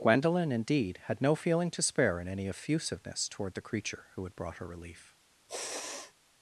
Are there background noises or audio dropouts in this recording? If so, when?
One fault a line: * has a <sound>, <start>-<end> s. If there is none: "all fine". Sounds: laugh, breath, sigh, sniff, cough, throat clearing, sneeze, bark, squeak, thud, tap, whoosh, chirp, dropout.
* has a sneeze, 5.5-6.1 s